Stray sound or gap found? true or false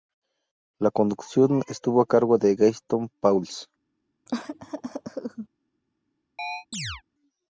true